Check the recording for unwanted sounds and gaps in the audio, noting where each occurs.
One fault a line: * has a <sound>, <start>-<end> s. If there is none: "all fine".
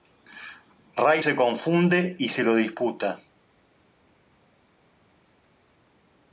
all fine